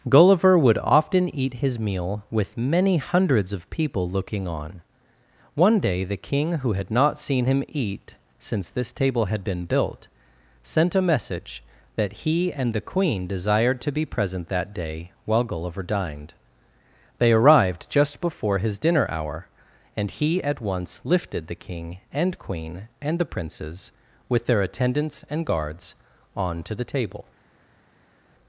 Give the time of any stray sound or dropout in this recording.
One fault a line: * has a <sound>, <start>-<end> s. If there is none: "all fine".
all fine